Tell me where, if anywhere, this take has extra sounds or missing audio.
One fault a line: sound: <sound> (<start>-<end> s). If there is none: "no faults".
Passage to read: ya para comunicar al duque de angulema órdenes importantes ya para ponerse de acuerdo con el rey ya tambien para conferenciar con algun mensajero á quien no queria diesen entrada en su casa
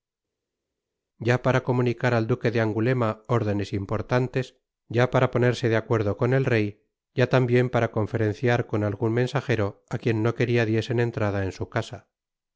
no faults